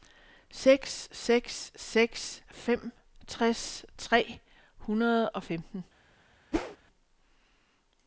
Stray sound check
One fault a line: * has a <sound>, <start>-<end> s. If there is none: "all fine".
* has a whoosh, 6.5-6.8 s